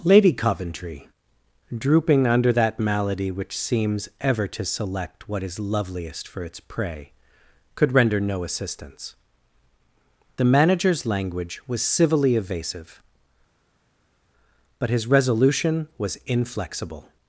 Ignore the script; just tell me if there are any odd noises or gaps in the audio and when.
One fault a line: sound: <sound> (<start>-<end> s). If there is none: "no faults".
no faults